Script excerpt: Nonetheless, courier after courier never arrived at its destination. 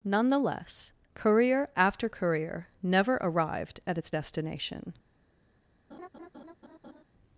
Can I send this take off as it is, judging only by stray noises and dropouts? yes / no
no